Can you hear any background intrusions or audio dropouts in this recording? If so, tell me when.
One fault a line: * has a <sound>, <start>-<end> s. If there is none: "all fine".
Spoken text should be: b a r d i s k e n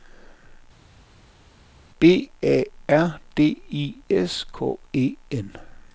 all fine